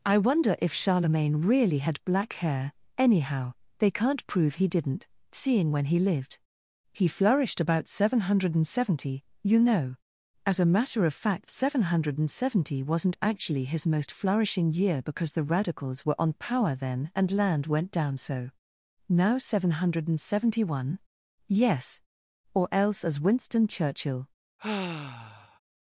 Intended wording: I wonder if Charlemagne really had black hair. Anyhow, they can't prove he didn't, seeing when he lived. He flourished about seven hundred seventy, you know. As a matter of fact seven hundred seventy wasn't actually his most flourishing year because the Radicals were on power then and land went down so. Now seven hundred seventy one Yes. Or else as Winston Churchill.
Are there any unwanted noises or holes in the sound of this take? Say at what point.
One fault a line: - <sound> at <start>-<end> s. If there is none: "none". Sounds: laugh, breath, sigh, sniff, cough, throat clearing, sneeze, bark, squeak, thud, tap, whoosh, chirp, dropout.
- sigh at 24.6-25.6 s